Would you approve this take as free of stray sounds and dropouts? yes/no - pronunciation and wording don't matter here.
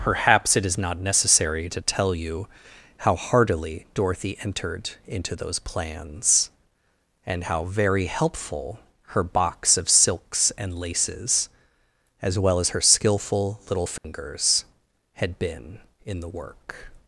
no